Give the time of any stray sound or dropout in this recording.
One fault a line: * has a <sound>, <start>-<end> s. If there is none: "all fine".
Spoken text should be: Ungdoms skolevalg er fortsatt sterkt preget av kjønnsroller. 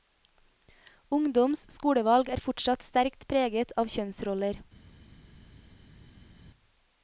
all fine